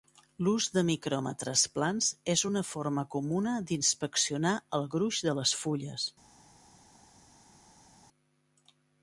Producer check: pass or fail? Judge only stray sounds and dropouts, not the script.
pass